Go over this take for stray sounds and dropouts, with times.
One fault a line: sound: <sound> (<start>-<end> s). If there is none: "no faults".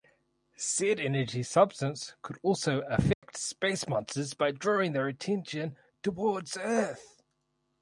sound: dropout (3.1-3.2 s)